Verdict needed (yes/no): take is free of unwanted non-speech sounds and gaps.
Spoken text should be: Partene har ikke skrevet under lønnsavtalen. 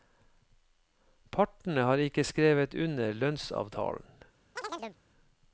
no